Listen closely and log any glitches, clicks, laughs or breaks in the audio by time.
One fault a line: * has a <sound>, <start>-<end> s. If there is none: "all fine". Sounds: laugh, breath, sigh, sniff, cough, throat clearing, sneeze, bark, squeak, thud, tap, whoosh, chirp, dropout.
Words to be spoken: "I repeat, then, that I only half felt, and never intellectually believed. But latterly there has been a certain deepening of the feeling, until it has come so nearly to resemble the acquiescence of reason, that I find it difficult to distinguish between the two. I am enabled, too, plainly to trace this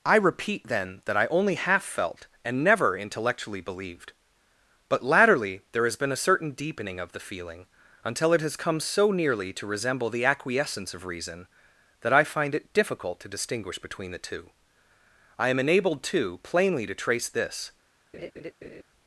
* has a laugh, 18.1-18.8 s